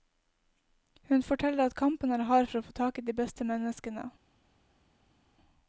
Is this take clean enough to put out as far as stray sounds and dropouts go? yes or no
yes